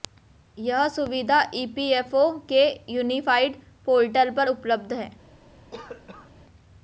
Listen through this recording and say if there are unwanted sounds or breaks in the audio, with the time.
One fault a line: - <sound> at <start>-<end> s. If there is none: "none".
- cough at 5.7-6.3 s